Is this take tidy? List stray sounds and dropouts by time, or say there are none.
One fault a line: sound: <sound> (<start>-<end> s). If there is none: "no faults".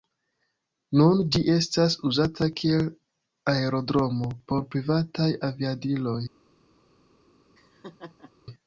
sound: laugh (7.5-8.3 s)